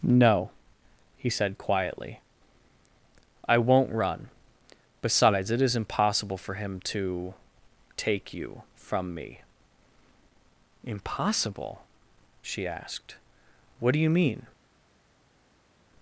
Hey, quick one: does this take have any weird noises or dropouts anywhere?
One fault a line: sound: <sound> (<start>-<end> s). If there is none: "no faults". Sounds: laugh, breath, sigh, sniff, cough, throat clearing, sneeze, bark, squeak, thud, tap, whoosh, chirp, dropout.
no faults